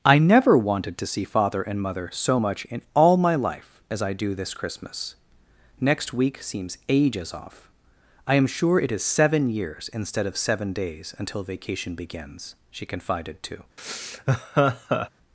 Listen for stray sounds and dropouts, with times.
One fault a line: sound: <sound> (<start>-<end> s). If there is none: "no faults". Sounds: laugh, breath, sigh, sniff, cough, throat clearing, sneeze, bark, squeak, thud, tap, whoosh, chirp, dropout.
sound: laugh (13.8-15.1 s)